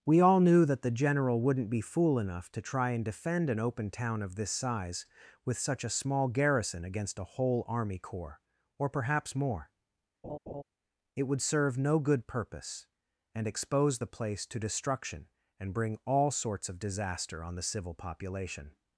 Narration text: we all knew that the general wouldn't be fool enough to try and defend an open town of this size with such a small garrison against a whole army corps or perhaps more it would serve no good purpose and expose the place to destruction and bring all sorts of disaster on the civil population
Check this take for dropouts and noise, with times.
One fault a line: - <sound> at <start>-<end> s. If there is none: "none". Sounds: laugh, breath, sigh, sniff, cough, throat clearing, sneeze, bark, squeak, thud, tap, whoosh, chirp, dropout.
- laugh at 10.2-10.6 s